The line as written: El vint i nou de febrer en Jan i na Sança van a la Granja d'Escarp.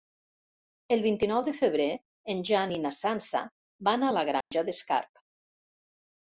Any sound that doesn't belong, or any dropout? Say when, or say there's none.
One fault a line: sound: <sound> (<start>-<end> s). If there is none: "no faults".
sound: dropout (4.4-4.5 s)